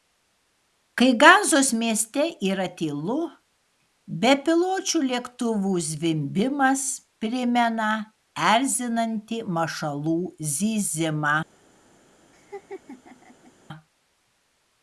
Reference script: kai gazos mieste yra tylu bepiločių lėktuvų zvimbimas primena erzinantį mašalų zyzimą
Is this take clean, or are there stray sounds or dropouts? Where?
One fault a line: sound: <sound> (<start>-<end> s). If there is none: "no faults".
sound: laugh (12.3-13.5 s)